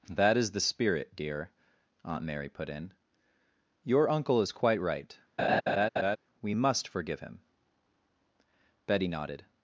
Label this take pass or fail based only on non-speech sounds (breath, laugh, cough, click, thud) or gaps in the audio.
fail